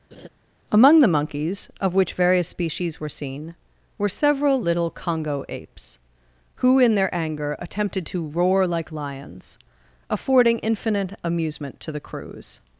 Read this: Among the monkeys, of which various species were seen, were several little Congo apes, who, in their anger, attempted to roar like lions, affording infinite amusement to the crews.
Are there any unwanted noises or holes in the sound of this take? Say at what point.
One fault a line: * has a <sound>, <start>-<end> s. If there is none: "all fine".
* has a laugh, 0.1-0.3 s